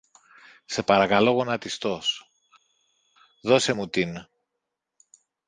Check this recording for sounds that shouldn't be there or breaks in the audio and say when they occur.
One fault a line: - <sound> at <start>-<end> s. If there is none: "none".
none